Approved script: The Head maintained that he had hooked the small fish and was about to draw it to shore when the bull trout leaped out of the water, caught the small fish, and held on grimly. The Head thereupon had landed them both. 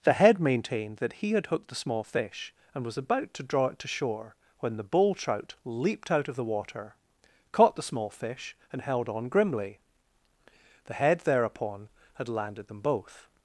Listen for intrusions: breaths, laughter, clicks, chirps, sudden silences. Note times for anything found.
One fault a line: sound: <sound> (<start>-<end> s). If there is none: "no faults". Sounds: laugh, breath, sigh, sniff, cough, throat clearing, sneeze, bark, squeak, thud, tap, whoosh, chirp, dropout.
no faults